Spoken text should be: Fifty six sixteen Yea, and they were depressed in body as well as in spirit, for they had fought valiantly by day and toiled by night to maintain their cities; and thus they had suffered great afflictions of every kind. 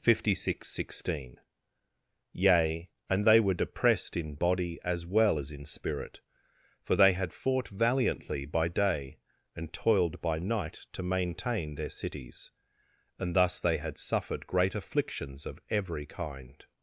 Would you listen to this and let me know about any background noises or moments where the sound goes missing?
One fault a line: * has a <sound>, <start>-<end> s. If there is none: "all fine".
all fine